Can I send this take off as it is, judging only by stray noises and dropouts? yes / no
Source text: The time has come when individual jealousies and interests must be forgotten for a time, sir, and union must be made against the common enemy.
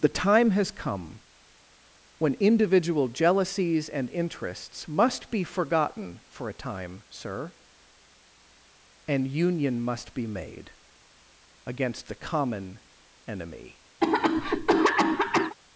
no